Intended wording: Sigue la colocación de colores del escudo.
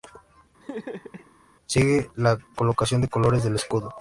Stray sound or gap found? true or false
true